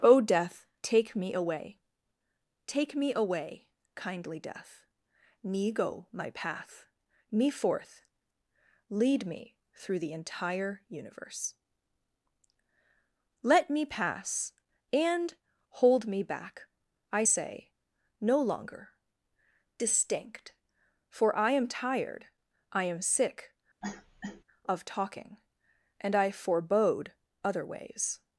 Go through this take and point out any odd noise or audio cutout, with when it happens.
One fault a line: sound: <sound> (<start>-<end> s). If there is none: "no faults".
sound: cough (23.8-24.4 s)